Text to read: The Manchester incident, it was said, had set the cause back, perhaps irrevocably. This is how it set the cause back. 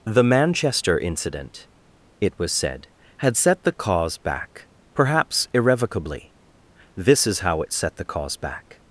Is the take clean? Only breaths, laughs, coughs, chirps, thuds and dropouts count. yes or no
yes